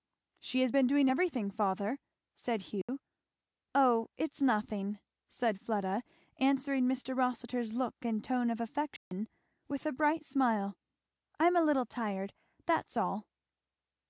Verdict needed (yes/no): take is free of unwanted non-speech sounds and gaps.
no